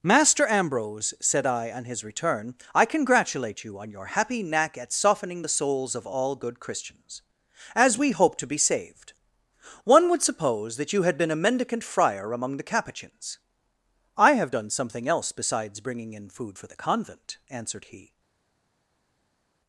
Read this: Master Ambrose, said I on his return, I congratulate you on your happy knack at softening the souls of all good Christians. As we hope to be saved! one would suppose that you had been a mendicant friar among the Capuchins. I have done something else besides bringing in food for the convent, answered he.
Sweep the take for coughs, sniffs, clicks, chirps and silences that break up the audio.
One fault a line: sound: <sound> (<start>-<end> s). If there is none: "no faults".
no faults